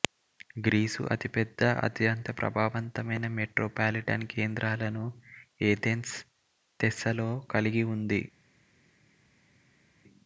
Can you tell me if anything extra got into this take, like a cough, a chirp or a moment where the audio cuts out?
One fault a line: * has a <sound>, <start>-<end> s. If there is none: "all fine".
all fine